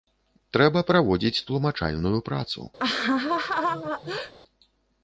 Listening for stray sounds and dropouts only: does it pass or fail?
fail